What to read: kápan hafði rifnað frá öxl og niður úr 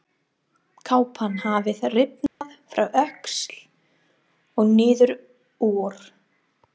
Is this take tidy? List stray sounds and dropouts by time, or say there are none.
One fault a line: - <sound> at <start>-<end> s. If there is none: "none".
- dropout at 2.3-2.4 s